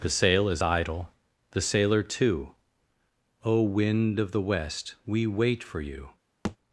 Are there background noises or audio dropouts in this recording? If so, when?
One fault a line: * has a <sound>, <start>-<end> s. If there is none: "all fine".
* has a thud, 6.4-6.6 s